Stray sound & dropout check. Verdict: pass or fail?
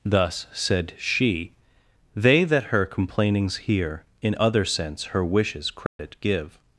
fail